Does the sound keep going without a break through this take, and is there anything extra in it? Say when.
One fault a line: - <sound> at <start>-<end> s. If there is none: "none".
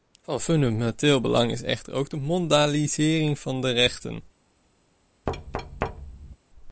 - thud at 5.3-6.4 s